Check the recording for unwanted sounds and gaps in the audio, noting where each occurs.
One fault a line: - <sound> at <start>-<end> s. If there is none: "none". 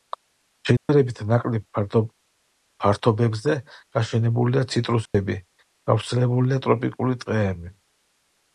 - dropout at 0.8-0.9 s
- dropout at 5.1-5.1 s